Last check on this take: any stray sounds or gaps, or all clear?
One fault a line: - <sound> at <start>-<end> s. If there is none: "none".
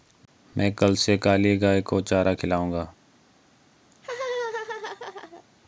- laugh at 3.9-5.4 s